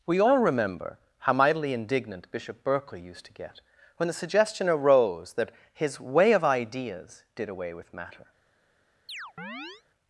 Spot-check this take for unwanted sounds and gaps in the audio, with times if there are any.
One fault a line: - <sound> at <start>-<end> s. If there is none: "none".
- chirp at 9.1-9.8 s